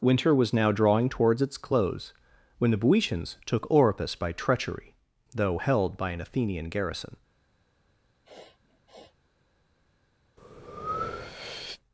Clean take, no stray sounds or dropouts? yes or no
no